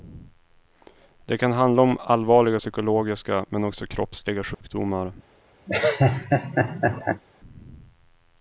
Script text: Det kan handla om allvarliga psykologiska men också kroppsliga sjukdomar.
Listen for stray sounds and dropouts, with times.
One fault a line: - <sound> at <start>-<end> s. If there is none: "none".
- dropout at 4.5-4.6 s
- laugh at 5.7-7.2 s